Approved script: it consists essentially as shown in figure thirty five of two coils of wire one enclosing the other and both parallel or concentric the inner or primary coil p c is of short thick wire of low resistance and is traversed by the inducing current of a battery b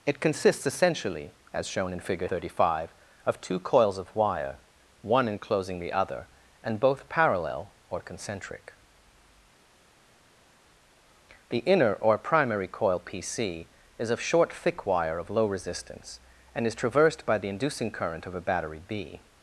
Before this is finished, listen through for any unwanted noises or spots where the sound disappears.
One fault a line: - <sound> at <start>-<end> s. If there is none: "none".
none